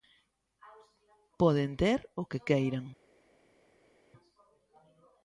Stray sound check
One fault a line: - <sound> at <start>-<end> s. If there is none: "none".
none